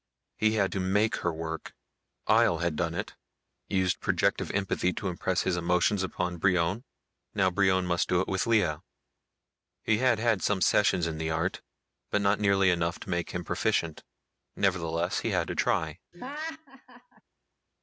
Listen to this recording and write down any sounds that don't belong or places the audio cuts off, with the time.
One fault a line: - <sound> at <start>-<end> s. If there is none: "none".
- laugh at 16.1-17.2 s